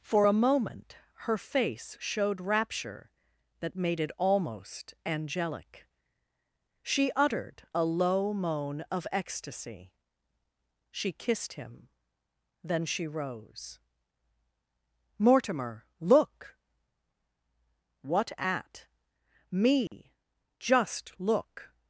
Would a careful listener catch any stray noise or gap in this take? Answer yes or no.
yes